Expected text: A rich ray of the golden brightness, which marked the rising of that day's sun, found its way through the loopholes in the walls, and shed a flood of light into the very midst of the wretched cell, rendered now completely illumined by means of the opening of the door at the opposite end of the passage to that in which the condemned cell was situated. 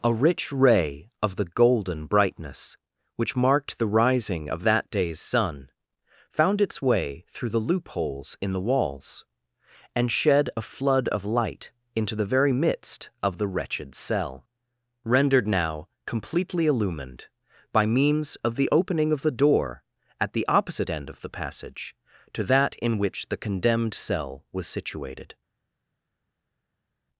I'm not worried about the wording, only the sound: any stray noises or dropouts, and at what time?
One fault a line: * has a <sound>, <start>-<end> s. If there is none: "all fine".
all fine